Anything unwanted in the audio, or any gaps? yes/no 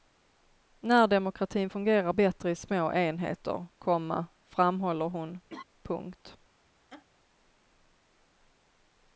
yes